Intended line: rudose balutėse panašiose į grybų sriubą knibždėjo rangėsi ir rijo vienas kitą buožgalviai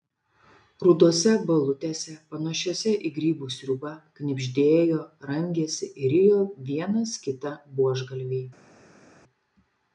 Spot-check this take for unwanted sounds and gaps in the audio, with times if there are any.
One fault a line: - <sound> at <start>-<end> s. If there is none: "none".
none